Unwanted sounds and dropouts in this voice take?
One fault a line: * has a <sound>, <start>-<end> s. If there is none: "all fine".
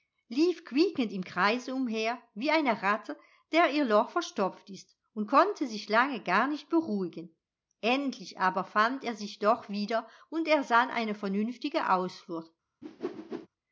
* has a whoosh, 12.8-13.5 s